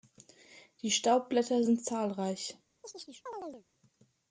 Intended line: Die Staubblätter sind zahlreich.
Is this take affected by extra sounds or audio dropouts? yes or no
yes